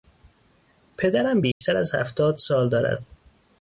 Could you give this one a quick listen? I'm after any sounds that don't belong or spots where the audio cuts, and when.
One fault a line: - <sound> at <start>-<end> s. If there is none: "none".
- dropout at 1.5-1.6 s